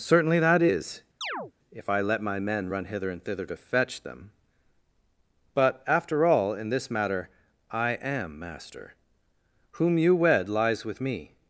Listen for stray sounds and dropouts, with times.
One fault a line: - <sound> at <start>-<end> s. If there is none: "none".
- chirp at 1.2-1.5 s